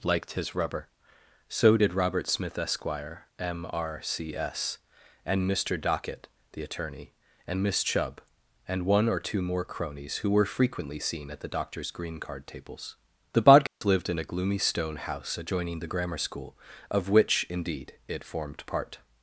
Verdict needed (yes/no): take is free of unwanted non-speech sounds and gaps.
no